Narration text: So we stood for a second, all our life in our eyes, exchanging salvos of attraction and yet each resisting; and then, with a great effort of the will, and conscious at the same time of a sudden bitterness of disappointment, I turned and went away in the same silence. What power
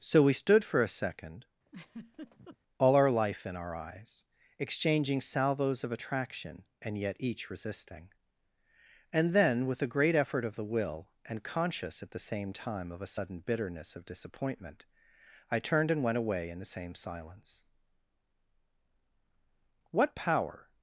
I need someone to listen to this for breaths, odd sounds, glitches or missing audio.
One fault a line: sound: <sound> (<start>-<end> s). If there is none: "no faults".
sound: laugh (1.7-2.6 s)